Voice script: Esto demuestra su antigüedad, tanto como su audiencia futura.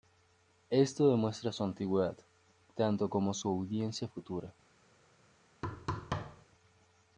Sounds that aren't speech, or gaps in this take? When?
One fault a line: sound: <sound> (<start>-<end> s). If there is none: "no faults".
sound: thud (5.6-6.5 s)